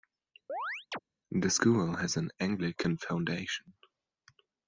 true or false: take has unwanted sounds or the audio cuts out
true